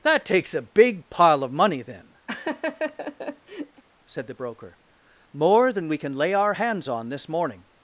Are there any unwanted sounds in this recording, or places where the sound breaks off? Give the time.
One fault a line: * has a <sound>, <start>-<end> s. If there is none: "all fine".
* has a laugh, 2.3-3.8 s